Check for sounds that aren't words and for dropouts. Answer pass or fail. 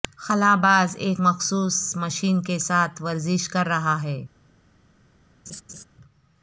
fail